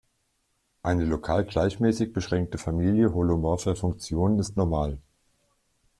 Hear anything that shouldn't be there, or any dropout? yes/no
no